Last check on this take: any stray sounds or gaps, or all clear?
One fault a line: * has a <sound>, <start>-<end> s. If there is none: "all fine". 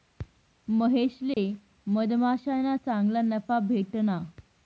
* has a dropout, 1.3-1.4 s